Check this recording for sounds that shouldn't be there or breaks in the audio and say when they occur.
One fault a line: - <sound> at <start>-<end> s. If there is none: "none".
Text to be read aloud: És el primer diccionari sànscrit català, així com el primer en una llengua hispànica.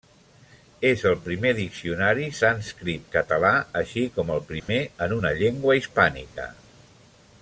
- dropout at 4.6-4.7 s